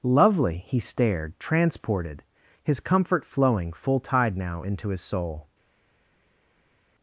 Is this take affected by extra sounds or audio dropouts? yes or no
no